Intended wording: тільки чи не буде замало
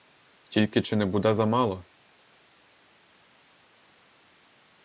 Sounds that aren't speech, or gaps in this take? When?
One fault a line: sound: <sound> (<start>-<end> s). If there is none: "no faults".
no faults